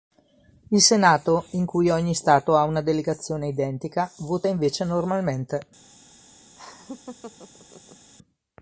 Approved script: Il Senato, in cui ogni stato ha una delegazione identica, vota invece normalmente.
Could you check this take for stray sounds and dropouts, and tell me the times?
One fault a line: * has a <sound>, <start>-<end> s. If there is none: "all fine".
* has a laugh, 6.6-8.1 s